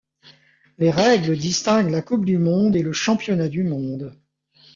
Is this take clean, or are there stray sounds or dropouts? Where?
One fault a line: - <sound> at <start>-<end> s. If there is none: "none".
none